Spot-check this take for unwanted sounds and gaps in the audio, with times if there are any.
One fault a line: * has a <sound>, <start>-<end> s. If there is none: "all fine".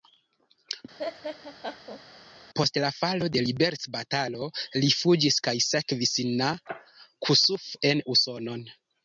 * has a laugh, 1.0-2.0 s